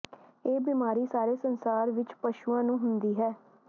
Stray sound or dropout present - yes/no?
no